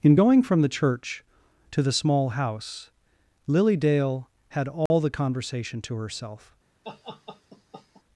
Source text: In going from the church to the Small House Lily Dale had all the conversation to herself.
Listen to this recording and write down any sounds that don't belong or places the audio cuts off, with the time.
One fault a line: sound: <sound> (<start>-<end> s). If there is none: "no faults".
sound: dropout (4.9-4.9 s)
sound: laugh (6.8-8.0 s)